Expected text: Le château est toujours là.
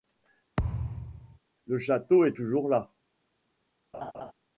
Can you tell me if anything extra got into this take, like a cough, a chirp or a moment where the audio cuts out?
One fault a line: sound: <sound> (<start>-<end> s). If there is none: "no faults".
sound: thud (0.6-1.4 s)
sound: laugh (3.9-4.3 s)